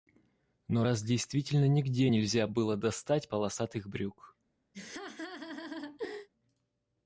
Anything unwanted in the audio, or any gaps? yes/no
yes